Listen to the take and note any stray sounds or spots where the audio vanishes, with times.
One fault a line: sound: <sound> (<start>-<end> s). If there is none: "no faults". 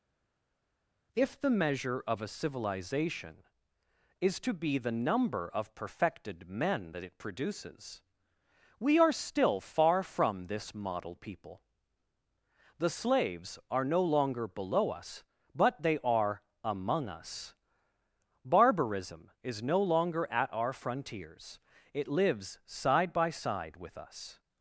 no faults